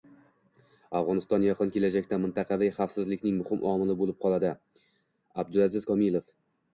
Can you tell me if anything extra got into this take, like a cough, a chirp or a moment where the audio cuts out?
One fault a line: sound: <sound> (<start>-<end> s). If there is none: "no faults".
no faults